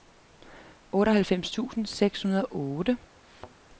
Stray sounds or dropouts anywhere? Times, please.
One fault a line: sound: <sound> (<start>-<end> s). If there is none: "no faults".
sound: thud (3.2-3.6 s)